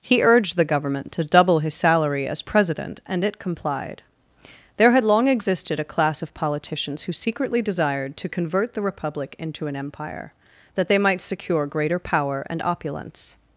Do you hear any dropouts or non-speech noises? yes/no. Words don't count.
no